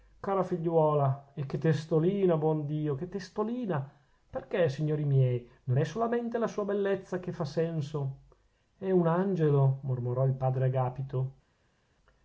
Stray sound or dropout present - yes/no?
no